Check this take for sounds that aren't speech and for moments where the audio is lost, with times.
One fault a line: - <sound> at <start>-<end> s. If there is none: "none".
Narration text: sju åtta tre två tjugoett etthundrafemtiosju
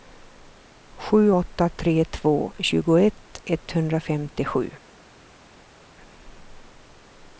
none